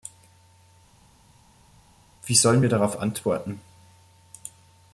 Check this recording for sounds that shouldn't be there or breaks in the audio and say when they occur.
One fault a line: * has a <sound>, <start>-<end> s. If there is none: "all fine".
all fine